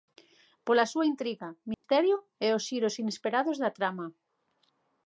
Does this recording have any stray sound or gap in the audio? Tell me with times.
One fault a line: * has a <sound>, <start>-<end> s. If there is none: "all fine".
* has a dropout, 1.7-1.8 s